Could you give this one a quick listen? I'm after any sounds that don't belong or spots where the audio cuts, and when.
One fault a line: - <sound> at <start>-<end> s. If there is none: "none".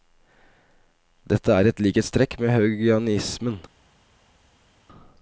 none